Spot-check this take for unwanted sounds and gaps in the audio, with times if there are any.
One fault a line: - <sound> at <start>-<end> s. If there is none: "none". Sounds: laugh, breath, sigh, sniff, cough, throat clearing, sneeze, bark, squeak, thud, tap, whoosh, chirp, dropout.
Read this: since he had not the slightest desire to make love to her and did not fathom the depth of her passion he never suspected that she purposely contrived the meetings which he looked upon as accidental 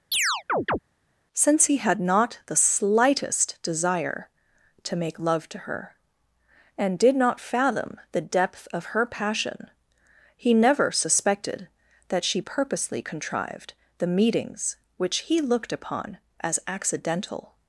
- chirp at 0.1-0.8 s